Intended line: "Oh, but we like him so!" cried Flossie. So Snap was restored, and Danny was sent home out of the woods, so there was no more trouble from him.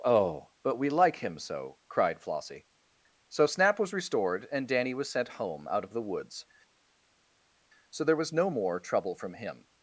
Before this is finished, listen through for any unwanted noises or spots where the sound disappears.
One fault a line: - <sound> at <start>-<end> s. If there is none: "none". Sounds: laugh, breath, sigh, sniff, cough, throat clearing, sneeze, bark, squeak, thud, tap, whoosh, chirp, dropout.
none